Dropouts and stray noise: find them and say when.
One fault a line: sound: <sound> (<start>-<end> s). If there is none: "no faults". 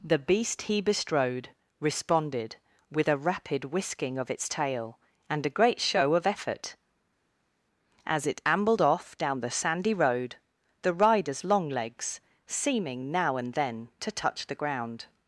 no faults